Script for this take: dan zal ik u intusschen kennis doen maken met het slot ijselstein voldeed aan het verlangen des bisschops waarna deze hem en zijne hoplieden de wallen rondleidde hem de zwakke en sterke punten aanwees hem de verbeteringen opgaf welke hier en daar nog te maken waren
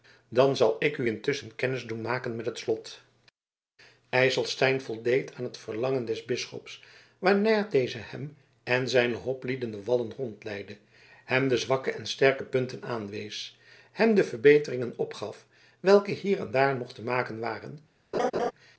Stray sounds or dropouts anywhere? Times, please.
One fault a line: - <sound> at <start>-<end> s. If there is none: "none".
- laugh at 18.1-18.5 s